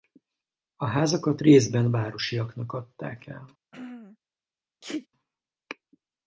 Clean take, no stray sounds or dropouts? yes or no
no